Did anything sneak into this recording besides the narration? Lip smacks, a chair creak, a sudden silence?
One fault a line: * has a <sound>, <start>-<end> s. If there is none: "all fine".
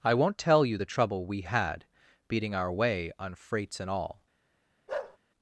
* has a bark, 4.9-5.2 s